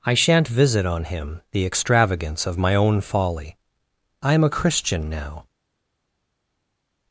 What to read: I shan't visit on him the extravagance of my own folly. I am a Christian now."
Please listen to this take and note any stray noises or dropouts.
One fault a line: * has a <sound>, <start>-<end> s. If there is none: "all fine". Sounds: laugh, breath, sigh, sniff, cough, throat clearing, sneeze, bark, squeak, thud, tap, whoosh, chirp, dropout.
all fine